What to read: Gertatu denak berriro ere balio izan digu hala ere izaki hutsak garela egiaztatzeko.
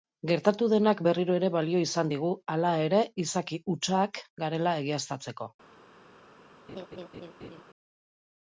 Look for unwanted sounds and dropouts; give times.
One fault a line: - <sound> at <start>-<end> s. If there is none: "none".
- laugh at 6.7-7.6 s